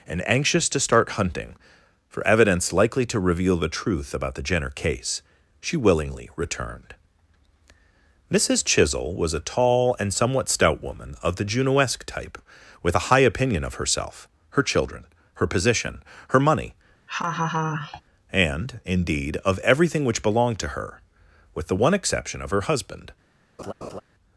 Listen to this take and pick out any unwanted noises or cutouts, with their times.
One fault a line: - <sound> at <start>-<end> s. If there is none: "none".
- laugh at 17.1-18.0 s
- laugh at 23.6-24.0 s